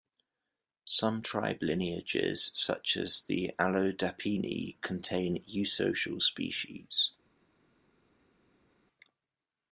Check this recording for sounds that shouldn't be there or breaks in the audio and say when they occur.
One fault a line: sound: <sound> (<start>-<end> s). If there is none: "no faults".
no faults